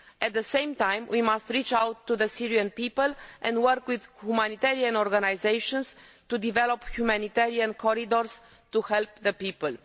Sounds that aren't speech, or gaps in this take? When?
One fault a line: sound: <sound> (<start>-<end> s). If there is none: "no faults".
no faults